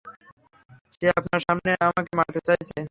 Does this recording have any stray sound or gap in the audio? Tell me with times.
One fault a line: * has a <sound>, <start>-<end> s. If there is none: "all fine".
all fine